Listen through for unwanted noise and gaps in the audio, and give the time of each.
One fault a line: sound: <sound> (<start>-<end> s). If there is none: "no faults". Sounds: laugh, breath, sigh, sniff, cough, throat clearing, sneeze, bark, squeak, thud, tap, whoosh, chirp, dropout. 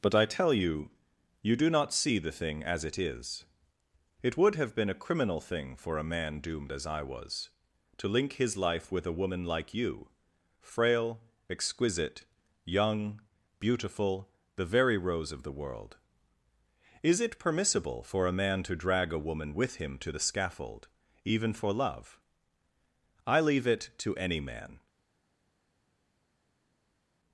no faults